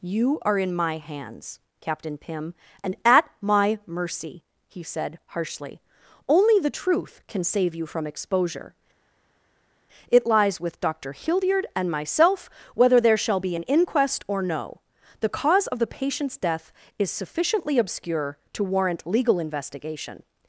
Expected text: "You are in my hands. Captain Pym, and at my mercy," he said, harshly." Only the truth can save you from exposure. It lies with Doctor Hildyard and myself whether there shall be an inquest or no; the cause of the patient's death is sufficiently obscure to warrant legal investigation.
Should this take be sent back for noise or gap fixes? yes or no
no